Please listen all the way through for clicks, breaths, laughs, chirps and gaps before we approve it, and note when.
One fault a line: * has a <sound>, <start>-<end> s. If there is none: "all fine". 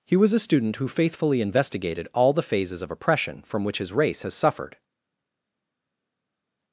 all fine